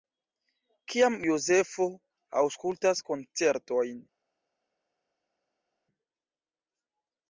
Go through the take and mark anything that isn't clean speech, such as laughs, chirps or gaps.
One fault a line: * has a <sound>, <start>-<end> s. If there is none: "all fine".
all fine